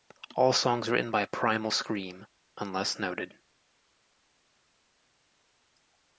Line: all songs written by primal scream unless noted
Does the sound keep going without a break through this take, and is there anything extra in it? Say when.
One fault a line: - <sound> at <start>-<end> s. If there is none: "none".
none